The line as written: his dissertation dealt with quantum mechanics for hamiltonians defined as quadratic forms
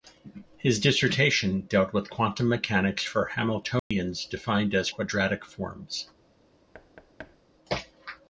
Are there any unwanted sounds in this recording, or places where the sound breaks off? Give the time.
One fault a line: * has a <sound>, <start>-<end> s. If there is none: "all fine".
* has a dropout, 3.8-3.9 s
* has a thud, 6.7-7.4 s